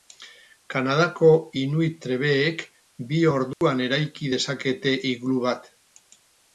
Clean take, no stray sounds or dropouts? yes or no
no